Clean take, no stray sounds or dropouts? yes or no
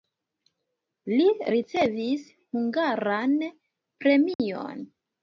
no